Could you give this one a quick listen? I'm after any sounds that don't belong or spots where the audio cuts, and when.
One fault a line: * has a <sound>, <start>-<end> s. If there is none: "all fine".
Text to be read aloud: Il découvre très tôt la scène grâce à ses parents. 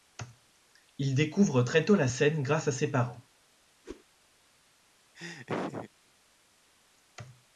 * has a whoosh, 3.8-4.0 s
* has a laugh, 5.2-5.9 s